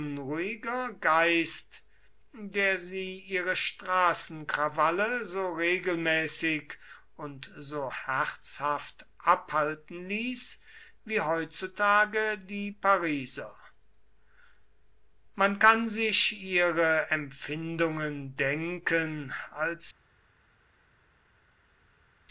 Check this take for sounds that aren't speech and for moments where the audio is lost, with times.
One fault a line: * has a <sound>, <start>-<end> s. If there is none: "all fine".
all fine